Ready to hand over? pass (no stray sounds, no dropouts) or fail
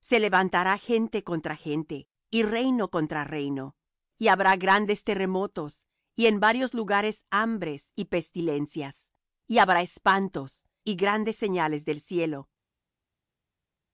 pass